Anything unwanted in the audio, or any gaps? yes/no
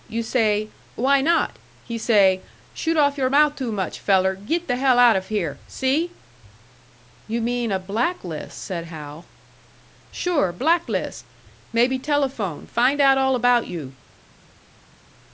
no